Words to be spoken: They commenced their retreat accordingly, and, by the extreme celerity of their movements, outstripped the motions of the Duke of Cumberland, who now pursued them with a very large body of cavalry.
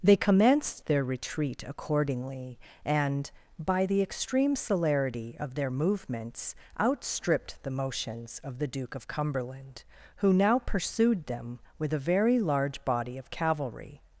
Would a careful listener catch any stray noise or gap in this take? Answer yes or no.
no